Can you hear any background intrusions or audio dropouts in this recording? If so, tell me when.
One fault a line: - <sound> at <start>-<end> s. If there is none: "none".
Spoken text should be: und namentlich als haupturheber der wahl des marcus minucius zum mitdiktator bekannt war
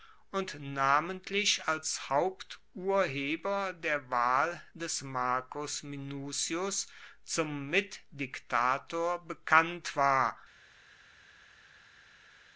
none